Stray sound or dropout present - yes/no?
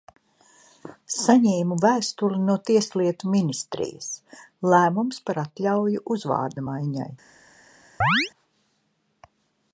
yes